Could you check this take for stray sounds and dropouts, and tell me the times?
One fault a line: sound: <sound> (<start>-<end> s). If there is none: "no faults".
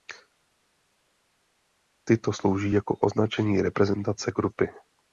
no faults